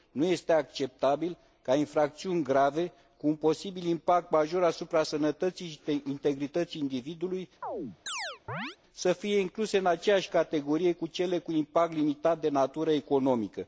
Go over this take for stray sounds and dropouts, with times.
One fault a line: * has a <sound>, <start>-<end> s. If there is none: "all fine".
* has a chirp, 7.6-8.8 s